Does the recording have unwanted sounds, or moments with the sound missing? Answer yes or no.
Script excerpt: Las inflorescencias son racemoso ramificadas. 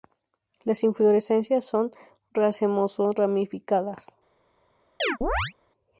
yes